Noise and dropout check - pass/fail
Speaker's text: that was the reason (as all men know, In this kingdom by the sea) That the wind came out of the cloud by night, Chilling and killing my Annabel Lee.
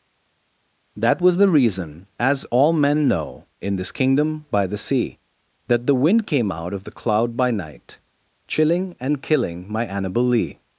pass